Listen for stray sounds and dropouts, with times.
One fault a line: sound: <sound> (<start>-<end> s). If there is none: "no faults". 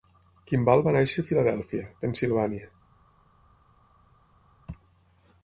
no faults